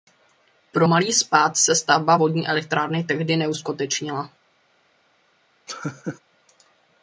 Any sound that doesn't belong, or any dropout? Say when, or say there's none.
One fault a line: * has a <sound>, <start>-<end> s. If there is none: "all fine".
* has a laugh, 5.7-6.2 s